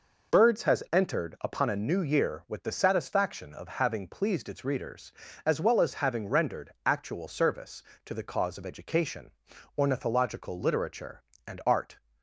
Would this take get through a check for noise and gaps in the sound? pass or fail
pass